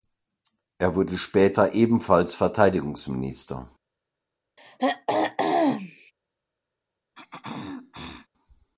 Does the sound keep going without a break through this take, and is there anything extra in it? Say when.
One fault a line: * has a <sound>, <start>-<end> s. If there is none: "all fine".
* has a throat clearing, 4.6-6.1 s
* has a throat clearing, 7.1-8.3 s